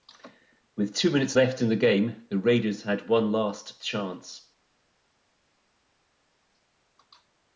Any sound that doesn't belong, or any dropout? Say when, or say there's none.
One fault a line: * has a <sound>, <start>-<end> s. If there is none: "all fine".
all fine